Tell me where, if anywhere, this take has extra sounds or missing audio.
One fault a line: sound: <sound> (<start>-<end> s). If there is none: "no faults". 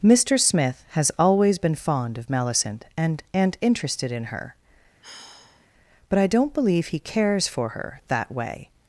sound: sigh (5.0-5.7 s)